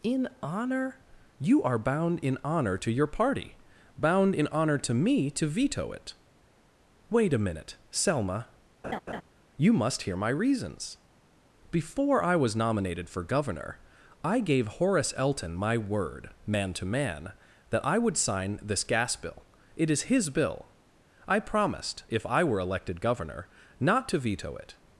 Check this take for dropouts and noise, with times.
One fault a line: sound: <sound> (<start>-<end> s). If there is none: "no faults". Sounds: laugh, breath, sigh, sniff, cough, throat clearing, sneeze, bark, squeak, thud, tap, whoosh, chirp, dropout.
sound: laugh (8.8-9.2 s)